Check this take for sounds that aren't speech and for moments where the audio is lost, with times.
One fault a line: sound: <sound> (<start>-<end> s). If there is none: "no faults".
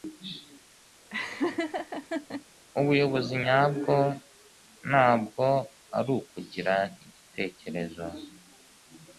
sound: laugh (1.1-2.4 s)